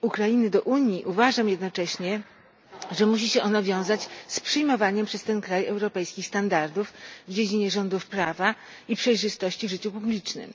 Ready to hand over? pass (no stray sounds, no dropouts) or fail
pass